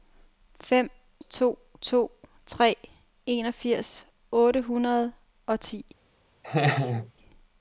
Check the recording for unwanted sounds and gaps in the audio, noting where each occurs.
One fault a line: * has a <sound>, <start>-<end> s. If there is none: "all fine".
* has a laugh, 6.4-7.1 s